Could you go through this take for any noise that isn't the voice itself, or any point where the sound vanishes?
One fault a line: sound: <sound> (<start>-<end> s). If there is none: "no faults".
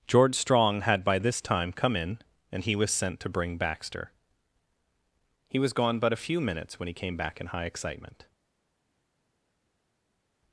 no faults